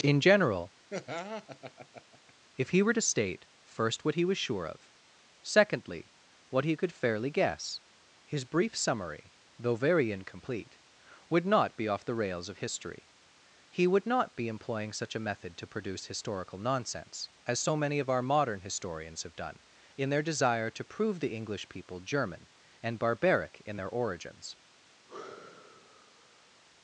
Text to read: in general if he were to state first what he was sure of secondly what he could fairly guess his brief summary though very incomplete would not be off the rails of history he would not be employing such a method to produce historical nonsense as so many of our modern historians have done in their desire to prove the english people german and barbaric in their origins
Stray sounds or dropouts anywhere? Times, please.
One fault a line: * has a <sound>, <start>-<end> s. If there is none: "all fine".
* has a laugh, 0.9-2.3 s
* has a sigh, 25.1-26.6 s